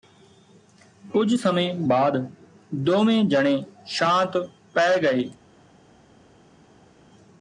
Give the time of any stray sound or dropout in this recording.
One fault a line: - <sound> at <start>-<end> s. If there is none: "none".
none